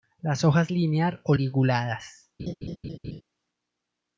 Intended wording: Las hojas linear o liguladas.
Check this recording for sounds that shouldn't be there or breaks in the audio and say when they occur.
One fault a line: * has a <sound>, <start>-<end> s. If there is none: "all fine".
* has a laugh, 2.4-3.2 s